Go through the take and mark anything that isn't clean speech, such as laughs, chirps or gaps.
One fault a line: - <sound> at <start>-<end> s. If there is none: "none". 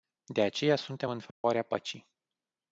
- dropout at 1.3-1.4 s